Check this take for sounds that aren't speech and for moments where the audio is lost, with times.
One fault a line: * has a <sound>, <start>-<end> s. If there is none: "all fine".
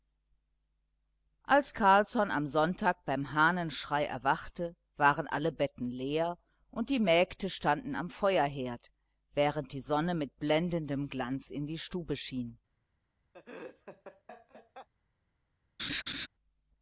* has a laugh, 13.3-14.9 s
* has a laugh, 15.8-16.3 s